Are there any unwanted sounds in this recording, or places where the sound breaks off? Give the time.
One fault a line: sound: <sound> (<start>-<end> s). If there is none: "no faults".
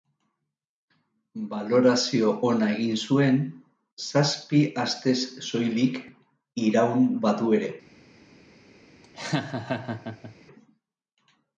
sound: laugh (9.0-10.4 s)